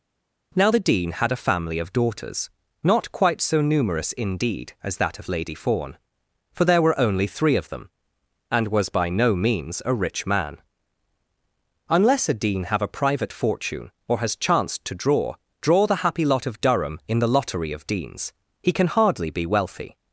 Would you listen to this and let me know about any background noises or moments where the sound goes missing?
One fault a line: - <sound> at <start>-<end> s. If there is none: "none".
none